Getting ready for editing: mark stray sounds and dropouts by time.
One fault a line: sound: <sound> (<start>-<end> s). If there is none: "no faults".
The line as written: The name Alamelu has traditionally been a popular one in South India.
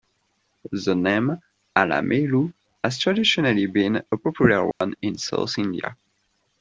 sound: dropout (4.7-4.8 s)